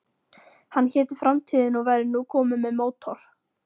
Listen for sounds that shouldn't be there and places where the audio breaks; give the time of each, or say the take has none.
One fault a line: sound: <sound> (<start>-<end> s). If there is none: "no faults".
no faults